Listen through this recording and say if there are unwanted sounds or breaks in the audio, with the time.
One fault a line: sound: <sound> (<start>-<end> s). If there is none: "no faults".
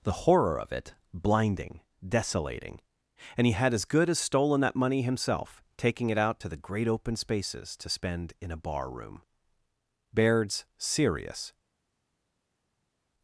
no faults